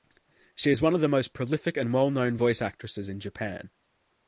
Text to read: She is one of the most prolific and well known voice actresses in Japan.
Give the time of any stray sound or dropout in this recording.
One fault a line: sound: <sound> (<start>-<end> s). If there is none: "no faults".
no faults